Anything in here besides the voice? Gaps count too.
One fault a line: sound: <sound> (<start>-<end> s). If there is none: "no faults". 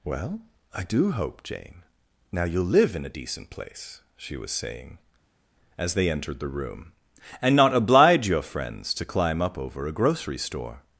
no faults